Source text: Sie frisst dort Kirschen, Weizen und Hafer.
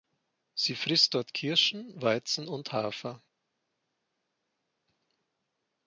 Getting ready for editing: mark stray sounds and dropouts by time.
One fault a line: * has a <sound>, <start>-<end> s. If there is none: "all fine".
all fine